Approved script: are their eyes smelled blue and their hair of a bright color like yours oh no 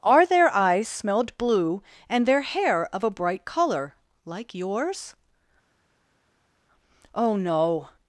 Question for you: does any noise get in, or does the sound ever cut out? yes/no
no